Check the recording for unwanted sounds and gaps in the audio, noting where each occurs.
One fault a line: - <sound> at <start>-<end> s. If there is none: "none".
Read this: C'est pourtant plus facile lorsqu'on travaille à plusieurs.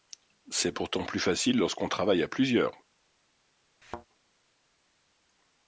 - thud at 3.8-4.1 s